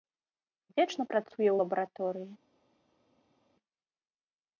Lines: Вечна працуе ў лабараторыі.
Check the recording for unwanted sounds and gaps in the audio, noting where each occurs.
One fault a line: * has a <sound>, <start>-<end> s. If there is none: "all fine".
all fine